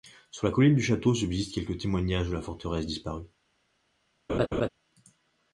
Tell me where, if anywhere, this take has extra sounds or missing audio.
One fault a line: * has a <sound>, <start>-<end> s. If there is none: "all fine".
* has a laugh, 4.3-4.7 s